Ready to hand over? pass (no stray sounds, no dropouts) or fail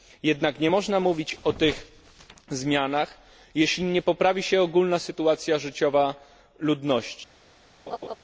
fail